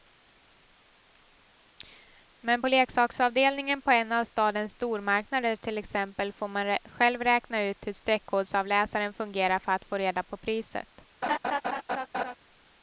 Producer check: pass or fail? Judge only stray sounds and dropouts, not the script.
fail